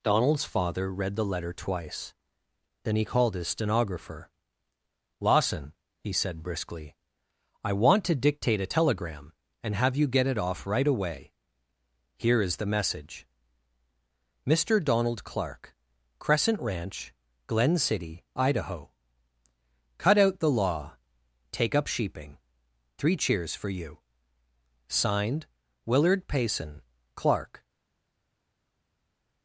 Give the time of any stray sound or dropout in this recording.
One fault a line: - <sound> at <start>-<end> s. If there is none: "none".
none